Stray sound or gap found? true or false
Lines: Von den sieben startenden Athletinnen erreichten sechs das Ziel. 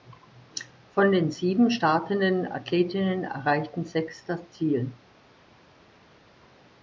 false